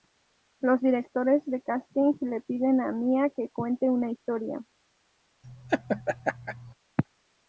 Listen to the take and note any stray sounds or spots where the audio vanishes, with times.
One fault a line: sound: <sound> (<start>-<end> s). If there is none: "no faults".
sound: laugh (5.4-6.7 s)